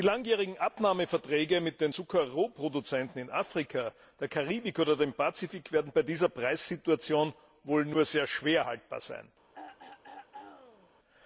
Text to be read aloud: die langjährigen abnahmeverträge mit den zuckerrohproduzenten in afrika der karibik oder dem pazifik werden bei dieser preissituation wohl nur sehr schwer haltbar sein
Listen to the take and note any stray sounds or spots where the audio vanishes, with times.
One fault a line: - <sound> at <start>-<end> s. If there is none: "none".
- throat clearing at 9.5-10.9 s